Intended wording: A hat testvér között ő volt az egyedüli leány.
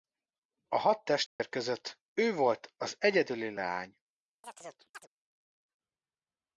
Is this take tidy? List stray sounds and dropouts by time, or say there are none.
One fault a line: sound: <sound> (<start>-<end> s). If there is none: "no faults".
sound: dropout (1.3-1.4 s)
sound: chirp (4.4-5.1 s)